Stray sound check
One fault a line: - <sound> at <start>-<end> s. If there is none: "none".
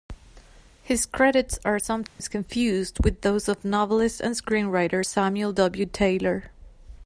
- dropout at 2.1-2.2 s